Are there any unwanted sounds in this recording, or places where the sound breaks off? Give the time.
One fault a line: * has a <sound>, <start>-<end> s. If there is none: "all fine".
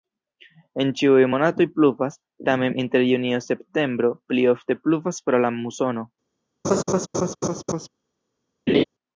* has a laugh, 6.6-7.9 s
* has a laugh, 8.7-8.8 s